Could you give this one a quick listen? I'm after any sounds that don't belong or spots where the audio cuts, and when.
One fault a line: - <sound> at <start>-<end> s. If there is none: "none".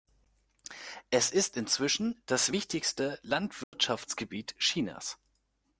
- dropout at 3.6-3.7 s